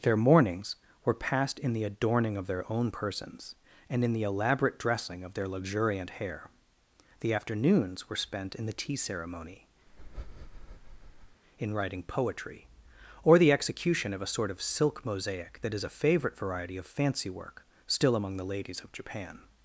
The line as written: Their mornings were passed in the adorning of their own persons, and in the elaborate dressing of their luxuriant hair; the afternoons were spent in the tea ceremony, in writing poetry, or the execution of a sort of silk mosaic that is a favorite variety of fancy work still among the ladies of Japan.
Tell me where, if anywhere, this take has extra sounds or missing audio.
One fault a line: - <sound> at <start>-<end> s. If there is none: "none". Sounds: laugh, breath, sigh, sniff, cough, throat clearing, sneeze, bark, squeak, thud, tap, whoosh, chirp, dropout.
- breath at 9.9-11.4 s